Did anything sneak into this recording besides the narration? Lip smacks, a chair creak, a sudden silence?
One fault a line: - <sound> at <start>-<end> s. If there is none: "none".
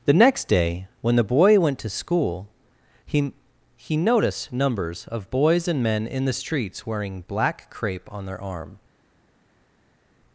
none